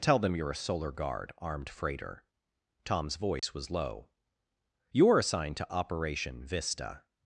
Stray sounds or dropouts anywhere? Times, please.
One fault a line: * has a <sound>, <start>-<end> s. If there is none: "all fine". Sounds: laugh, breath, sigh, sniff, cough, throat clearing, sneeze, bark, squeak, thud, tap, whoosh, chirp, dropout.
* has a dropout, 3.4-3.4 s